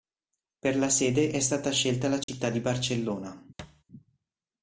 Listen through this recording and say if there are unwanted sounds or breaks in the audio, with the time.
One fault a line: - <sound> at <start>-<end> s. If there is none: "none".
- dropout at 2.2-2.3 s
- thud at 3.6-3.8 s